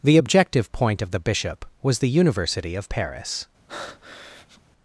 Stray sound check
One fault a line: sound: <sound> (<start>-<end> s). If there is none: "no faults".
sound: breath (3.7-4.6 s)